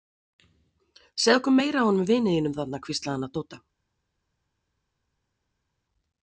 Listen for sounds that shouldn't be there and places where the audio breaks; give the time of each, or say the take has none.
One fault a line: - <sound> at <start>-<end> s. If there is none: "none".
none